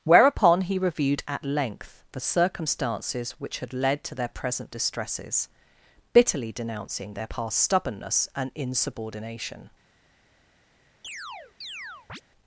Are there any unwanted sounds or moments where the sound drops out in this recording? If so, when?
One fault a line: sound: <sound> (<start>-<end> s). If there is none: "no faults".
sound: chirp (11.0-12.2 s)